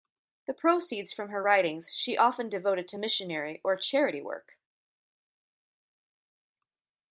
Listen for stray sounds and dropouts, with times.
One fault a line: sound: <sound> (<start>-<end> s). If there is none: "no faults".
no faults